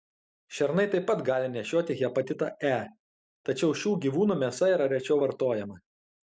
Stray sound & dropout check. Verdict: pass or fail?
pass